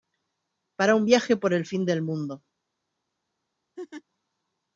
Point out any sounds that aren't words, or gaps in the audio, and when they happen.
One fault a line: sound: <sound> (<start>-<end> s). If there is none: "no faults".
sound: laugh (3.8-4.0 s)